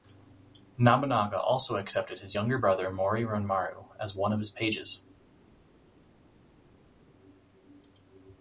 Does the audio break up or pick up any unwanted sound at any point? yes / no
no